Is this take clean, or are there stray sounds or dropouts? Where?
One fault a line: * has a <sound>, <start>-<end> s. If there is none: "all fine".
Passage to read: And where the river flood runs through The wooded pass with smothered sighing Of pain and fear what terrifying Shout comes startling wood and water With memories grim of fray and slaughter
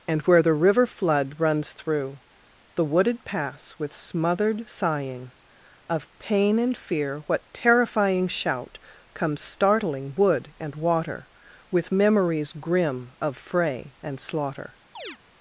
* has a chirp, 14.9-15.2 s